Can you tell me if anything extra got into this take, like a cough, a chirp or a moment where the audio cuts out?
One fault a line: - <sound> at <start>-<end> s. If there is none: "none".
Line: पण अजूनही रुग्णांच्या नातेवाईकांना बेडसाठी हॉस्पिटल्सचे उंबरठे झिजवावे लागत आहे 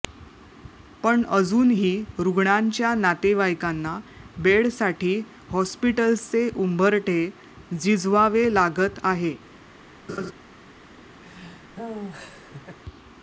- laugh at 10.1-10.3 s
- laugh at 11.2-12.8 s